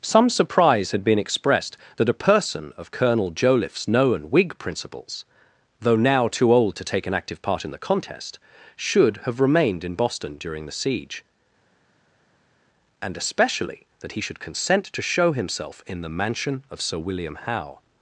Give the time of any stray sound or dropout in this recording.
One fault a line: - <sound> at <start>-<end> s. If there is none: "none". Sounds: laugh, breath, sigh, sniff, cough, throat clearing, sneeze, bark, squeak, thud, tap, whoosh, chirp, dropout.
none